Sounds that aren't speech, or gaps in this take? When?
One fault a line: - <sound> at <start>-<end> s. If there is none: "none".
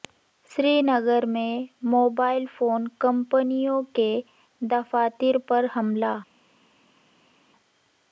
none